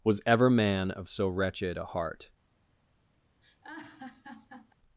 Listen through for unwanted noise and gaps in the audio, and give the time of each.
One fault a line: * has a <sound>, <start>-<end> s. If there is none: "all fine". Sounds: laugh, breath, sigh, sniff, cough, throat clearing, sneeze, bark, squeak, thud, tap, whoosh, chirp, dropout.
* has a laugh, 3.4-4.7 s